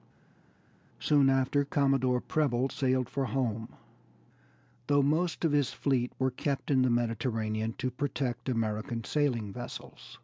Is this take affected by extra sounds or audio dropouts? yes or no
no